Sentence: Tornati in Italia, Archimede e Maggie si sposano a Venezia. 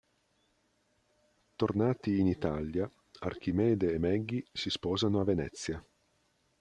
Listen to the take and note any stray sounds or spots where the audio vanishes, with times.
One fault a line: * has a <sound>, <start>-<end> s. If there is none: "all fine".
all fine